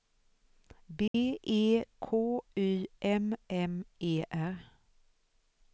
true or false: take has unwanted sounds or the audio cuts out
true